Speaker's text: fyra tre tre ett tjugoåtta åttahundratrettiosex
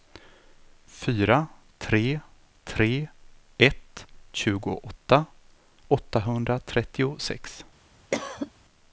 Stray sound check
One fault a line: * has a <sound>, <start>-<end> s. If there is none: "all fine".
* has a cough, 8.1-8.5 s